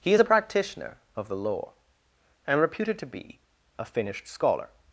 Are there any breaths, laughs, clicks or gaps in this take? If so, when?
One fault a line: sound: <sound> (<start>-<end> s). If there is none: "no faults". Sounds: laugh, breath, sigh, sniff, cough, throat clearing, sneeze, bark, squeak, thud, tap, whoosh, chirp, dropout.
no faults